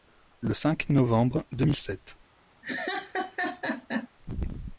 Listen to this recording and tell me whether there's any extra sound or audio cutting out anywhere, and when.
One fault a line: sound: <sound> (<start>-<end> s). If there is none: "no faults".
sound: laugh (2.6-4.1 s)